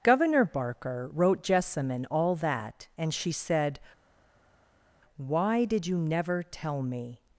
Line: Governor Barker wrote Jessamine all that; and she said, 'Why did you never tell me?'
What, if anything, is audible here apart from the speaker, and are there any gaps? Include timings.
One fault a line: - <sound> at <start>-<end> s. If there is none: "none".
none